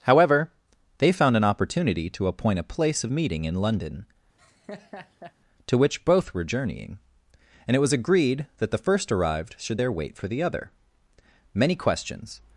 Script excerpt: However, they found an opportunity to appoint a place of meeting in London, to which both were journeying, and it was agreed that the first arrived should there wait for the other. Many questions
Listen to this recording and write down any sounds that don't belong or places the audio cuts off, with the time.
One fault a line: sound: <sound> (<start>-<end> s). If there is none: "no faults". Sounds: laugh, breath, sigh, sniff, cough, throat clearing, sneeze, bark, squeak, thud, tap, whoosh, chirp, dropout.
sound: laugh (4.4-5.3 s)